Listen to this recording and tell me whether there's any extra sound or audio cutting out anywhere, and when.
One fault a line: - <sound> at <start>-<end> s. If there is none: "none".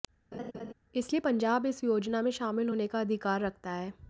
- laugh at 0.3-0.7 s